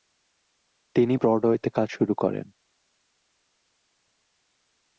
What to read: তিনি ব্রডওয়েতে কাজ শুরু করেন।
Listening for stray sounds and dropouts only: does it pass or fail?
pass